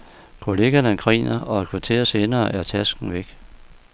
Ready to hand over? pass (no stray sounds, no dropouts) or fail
pass